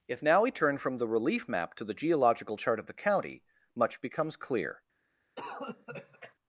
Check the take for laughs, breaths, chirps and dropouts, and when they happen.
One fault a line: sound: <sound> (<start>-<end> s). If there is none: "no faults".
sound: cough (5.4-6.3 s)